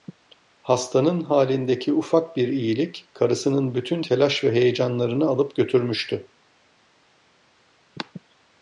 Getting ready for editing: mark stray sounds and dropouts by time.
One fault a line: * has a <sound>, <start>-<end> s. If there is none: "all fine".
all fine